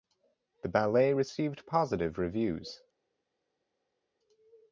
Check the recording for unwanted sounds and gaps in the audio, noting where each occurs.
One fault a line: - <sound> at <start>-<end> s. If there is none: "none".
none